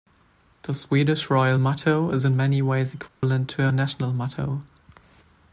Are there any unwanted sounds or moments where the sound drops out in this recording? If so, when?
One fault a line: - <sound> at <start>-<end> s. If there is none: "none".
- dropout at 3.1-3.2 s